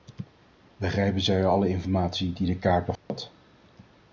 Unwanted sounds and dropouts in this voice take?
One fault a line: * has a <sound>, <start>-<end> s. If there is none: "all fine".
* has a dropout, 3.0-3.1 s